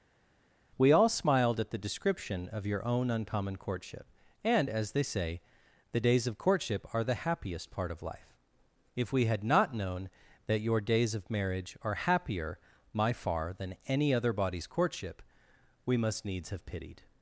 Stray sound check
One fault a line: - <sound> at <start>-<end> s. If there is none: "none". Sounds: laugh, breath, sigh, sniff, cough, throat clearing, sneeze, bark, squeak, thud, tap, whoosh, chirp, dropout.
none